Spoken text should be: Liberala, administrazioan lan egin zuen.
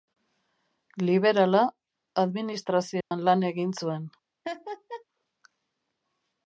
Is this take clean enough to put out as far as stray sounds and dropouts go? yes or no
no